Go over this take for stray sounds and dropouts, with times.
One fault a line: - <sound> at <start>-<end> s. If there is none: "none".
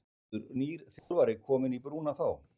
- dropout at 1.0-1.1 s